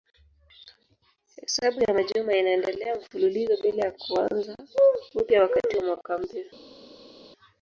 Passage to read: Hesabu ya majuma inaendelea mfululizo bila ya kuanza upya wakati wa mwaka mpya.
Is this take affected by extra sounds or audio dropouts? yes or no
no